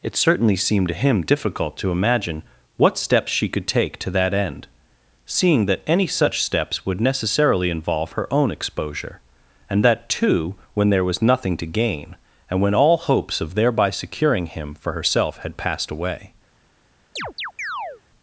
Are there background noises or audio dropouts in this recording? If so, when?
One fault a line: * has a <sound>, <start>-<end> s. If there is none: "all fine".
* has a chirp, 17.2-18.0 s